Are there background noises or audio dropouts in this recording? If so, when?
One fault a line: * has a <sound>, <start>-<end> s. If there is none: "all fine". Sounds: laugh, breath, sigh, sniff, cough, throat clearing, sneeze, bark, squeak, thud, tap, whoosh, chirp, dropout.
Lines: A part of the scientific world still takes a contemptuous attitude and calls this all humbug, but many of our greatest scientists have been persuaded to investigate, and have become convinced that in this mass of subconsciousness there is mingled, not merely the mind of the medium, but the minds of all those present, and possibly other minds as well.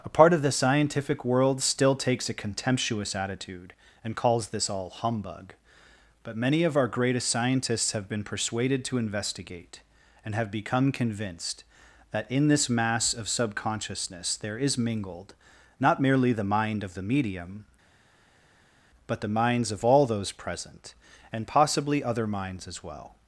all fine